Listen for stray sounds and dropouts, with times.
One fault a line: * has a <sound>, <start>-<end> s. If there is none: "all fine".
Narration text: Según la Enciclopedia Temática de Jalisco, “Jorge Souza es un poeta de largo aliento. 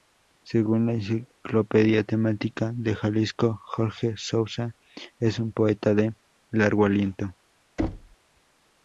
* has a thud, 7.8-8.2 s